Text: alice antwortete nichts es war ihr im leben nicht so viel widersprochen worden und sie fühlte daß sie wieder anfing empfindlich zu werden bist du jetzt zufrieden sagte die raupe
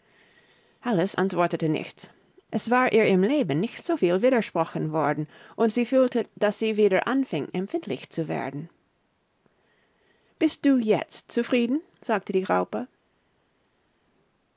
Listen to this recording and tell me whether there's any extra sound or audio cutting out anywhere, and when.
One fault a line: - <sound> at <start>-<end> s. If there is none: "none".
none